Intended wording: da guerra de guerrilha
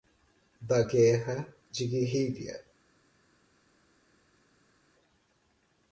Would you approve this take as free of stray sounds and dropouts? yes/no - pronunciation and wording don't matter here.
yes